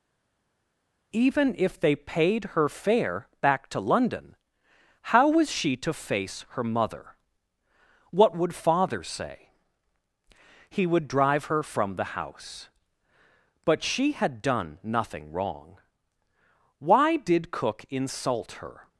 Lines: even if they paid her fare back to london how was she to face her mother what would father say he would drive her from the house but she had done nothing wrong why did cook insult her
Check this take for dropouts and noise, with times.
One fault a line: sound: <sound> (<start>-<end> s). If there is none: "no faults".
no faults